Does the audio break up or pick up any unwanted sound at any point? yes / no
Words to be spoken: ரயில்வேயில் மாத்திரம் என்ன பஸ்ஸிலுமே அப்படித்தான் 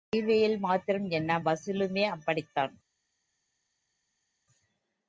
no